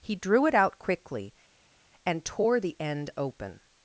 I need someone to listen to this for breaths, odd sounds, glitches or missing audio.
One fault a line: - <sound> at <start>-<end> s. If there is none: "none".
none